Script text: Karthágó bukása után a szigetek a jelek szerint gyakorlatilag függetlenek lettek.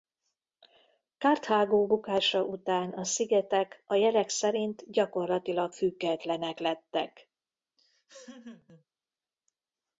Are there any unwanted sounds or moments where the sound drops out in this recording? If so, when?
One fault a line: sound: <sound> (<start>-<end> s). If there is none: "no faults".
sound: laugh (7.8-8.8 s)